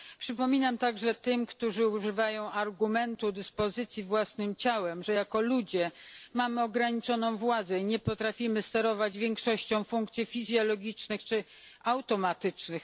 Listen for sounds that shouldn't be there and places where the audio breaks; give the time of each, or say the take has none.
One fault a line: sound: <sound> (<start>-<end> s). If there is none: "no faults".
no faults